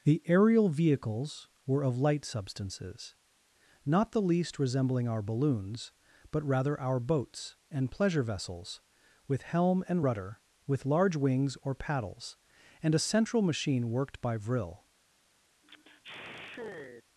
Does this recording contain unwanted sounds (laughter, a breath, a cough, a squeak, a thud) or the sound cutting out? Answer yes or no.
yes